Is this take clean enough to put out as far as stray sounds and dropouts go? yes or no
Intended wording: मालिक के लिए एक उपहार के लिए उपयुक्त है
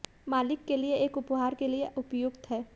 yes